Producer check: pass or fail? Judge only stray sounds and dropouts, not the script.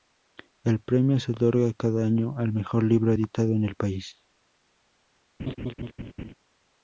fail